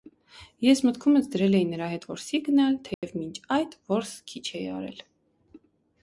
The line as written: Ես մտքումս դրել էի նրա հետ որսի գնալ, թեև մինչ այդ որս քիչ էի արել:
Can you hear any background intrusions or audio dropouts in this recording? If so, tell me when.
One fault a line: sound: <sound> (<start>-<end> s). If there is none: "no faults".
sound: dropout (2.9-3.0 s)